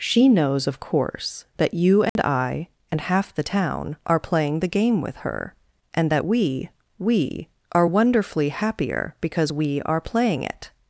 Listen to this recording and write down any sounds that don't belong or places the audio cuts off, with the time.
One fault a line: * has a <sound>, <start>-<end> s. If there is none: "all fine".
* has a dropout, 2.1-2.2 s